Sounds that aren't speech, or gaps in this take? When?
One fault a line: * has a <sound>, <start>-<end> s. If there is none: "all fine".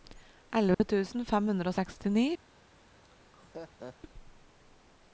* has a dropout, 0.7-0.8 s
* has a laugh, 3.0-4.0 s